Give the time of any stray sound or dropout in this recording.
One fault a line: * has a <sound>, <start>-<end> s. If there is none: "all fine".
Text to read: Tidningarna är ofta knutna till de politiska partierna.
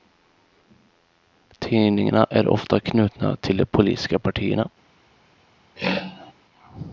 * has a throat clearing, 5.8-6.3 s